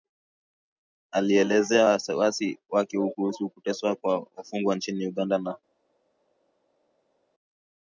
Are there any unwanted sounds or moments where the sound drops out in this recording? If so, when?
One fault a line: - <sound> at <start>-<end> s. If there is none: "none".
none